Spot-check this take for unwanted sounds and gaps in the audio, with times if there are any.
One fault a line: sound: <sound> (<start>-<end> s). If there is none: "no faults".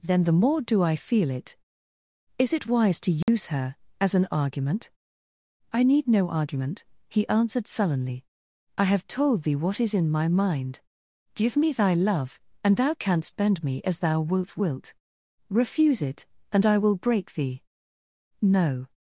sound: dropout (3.2-3.3 s)